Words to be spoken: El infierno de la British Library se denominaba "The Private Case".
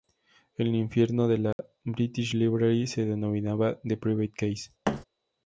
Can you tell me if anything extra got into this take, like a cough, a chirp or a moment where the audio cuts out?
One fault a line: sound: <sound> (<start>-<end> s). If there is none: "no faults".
sound: dropout (1.5-1.6 s)
sound: thud (4.8-5.0 s)